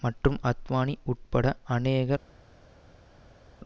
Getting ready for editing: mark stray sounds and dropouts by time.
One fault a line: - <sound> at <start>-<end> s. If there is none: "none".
none